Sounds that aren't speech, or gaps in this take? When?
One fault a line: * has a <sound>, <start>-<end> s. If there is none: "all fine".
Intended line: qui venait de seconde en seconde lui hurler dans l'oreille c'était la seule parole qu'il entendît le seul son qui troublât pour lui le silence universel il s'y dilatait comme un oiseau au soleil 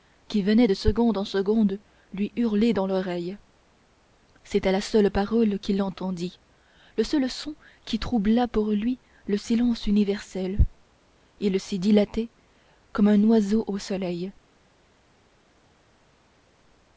all fine